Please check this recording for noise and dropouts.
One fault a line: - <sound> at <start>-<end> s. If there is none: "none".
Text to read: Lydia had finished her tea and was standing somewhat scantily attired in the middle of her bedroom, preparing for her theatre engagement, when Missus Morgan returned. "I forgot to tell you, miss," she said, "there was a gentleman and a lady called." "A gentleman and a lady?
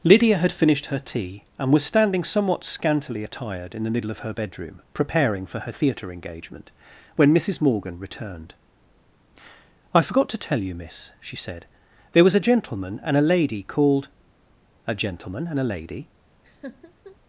- laugh at 16.4-17.2 s